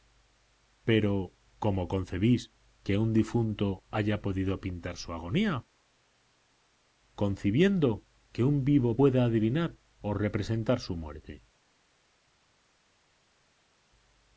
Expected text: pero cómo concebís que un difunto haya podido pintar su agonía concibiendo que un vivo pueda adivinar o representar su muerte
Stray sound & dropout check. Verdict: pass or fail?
pass